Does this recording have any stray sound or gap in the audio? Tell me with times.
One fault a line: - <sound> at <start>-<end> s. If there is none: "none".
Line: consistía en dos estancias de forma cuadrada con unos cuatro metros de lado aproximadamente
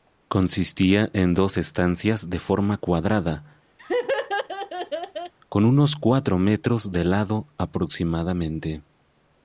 - laugh at 3.8-5.3 s